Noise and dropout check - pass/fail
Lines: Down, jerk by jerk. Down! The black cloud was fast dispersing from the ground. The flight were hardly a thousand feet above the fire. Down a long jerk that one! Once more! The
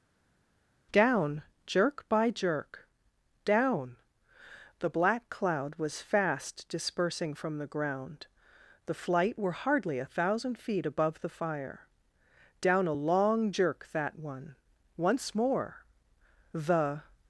pass